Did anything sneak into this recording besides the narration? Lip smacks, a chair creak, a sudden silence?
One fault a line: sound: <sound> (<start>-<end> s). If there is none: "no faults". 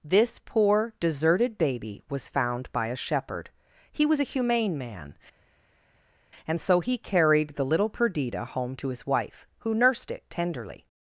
no faults